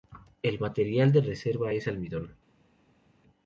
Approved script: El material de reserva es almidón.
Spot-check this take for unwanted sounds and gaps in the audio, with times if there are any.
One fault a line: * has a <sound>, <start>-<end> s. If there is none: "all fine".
all fine